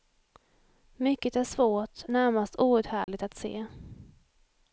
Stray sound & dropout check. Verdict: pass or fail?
fail